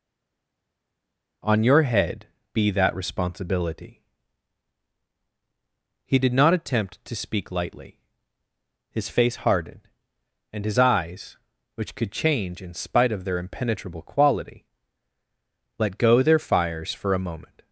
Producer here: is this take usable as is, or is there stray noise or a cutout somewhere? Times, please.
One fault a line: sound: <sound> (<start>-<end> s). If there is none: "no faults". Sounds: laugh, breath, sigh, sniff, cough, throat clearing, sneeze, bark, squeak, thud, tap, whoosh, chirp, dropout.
no faults